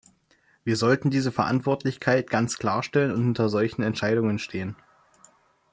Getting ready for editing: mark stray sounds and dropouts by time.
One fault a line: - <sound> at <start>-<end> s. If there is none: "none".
none